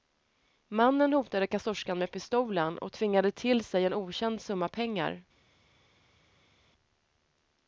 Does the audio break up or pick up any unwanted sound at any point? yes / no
no